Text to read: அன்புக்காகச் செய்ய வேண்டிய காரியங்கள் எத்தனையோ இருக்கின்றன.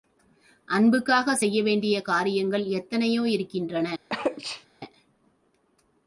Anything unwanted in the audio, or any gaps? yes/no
yes